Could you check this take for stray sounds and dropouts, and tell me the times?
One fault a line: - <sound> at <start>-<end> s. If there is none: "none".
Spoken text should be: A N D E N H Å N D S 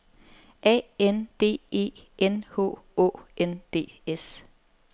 none